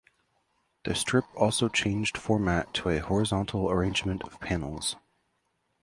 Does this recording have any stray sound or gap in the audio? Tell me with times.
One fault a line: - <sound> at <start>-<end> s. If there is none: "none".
none